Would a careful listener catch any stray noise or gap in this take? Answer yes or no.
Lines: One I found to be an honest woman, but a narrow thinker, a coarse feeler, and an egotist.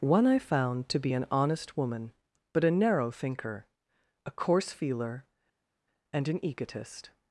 no